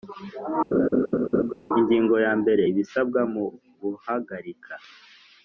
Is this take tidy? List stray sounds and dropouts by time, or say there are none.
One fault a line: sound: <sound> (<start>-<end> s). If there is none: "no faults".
sound: laugh (0.7-1.5 s)